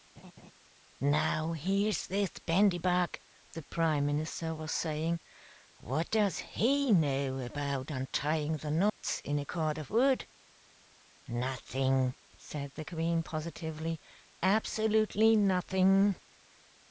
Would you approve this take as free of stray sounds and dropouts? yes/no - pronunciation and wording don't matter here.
no